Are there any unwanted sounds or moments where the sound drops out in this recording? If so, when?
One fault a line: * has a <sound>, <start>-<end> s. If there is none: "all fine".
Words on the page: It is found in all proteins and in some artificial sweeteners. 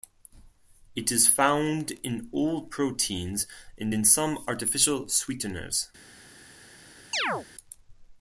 * has a chirp, 7.1-7.5 s